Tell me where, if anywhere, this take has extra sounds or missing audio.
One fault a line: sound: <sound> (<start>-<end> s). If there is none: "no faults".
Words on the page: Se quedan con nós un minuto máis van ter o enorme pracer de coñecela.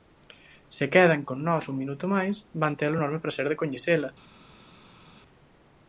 no faults